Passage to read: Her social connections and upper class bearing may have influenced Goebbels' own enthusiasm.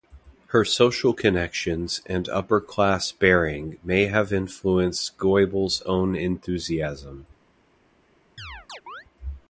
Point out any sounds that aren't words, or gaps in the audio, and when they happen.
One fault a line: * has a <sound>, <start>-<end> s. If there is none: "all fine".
* has a chirp, 8.4-9.1 s